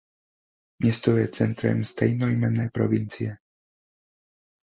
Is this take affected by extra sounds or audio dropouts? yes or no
no